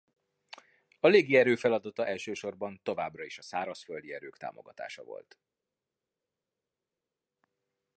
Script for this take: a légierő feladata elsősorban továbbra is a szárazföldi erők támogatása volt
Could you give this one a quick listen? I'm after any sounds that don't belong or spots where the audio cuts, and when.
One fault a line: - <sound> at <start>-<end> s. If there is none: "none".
none